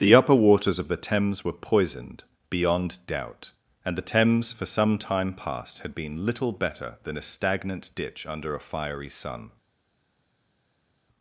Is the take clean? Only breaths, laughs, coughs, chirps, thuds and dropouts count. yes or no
yes